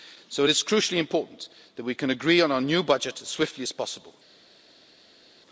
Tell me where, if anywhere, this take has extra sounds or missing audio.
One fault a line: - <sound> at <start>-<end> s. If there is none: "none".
none